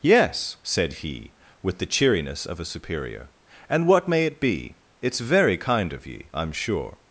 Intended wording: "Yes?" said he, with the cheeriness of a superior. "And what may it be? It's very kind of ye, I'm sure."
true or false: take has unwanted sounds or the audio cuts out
false